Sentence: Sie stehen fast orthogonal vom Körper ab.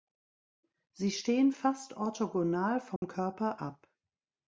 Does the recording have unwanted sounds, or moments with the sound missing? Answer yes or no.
yes